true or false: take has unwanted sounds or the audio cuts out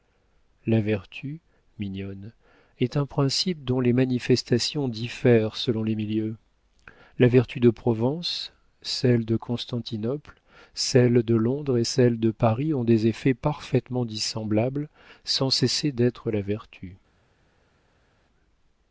false